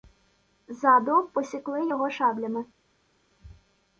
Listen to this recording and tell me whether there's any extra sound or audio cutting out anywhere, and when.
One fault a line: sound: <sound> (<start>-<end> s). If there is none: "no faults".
no faults